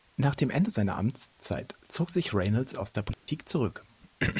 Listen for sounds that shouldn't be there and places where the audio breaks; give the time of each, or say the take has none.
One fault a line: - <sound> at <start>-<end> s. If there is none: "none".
- dropout at 3.1-3.3 s